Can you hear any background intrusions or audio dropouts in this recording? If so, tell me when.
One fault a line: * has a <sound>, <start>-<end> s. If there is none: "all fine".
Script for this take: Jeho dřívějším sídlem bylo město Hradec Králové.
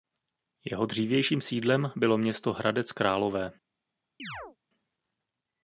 * has a chirp, 4.2-4.6 s